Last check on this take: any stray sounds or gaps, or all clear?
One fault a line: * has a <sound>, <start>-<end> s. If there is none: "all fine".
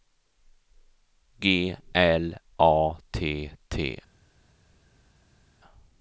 all fine